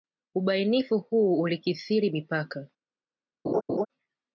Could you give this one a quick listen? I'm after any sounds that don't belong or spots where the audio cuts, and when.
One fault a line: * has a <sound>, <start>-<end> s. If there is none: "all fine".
* has a laugh, 3.4-3.9 s